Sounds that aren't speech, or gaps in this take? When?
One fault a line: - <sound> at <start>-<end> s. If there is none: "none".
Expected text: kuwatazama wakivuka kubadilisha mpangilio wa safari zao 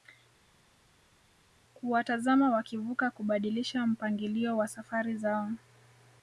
none